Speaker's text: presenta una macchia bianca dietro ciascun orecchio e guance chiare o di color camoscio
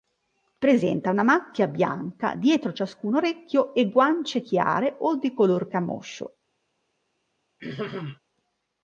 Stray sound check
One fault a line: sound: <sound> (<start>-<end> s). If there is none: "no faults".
sound: throat clearing (7.6-8.2 s)